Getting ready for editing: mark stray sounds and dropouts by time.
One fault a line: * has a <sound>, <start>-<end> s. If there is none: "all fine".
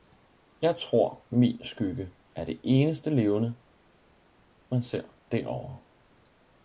all fine